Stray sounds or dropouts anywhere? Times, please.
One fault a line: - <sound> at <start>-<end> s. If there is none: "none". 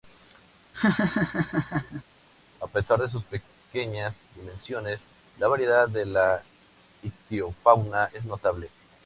- laugh at 0.7-2.0 s